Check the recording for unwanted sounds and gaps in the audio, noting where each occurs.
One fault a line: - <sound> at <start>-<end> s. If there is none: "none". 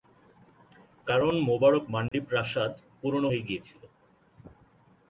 - dropout at 2.1-2.1 s